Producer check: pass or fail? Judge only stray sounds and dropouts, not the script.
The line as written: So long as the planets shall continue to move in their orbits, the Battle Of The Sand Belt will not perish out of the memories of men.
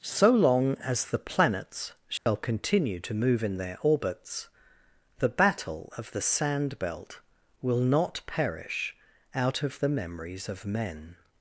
fail